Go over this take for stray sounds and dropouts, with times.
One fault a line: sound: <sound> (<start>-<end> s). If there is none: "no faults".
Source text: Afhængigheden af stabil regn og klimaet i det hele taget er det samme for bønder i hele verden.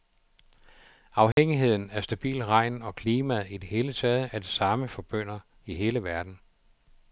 sound: dropout (1.3-1.4 s)